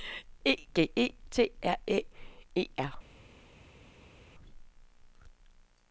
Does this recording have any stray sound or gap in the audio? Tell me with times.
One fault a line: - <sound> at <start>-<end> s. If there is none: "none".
none